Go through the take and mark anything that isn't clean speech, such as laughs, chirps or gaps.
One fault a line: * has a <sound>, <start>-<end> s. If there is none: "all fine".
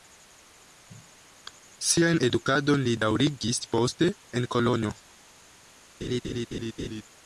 * has a laugh, 6.0-7.0 s